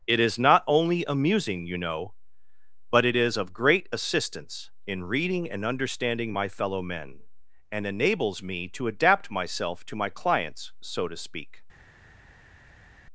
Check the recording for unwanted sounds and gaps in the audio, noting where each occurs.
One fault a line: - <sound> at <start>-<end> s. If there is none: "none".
none